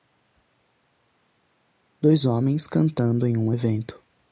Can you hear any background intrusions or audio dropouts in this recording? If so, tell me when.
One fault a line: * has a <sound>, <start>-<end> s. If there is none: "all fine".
all fine